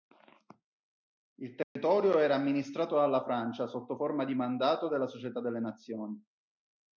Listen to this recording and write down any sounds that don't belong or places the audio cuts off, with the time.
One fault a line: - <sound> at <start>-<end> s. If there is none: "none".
- dropout at 1.6-1.8 s